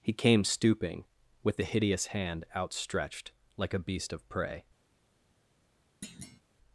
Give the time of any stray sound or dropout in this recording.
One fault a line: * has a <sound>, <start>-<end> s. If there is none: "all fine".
* has a thud, 6.0-6.4 s